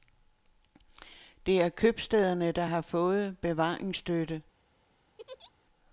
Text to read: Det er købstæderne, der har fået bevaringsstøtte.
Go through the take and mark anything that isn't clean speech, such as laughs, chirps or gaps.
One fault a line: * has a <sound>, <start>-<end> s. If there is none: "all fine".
* has a laugh, 5.2-5.5 s